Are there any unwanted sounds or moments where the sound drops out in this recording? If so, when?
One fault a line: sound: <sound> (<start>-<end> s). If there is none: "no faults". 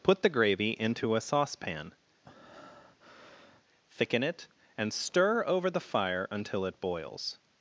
sound: breath (2.2-3.6 s)